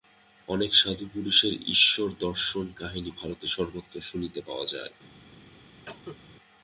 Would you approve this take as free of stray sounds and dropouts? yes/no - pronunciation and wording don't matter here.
no